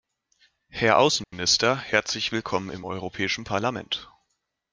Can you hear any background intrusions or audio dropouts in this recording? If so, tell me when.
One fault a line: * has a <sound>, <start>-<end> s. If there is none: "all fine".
* has a dropout, 1.2-1.3 s